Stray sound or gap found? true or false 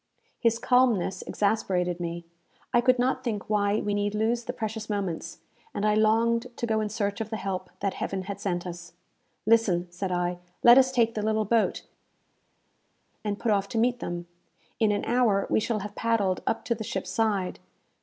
false